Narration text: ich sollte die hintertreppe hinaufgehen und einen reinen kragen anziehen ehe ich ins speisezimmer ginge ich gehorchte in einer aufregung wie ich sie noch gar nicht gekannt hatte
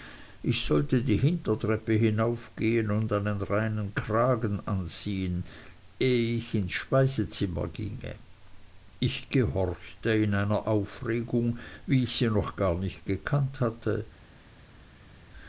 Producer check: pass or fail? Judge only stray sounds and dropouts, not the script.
pass